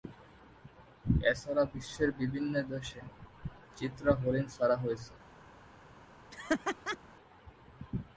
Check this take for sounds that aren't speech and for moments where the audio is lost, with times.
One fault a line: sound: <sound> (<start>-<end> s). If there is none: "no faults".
sound: laugh (6.3-7.0 s)